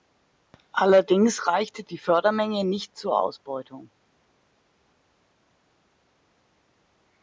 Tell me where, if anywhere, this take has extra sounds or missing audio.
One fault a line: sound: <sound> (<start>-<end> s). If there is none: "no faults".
no faults